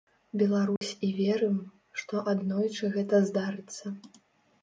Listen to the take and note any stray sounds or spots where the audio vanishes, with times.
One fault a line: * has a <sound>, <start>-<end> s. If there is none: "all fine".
* has a dropout, 0.8-0.8 s